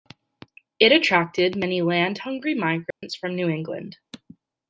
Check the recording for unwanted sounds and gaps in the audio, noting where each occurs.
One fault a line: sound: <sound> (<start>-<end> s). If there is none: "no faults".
sound: dropout (2.9-3.0 s)